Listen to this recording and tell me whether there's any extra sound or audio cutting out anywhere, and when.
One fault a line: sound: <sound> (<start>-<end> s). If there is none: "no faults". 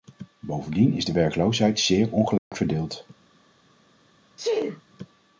sound: dropout (2.4-2.5 s)
sound: sneeze (4.4-4.8 s)